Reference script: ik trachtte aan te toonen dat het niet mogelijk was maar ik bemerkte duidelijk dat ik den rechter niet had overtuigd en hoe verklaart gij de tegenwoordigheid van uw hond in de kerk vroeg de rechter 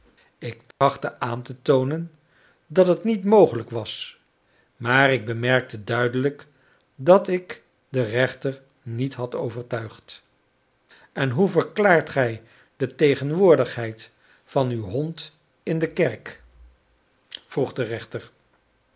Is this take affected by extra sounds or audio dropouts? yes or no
yes